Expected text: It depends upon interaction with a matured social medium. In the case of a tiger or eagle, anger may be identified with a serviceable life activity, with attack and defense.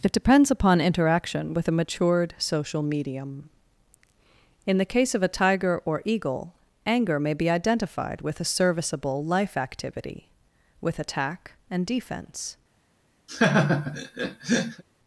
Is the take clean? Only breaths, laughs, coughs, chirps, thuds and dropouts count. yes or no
no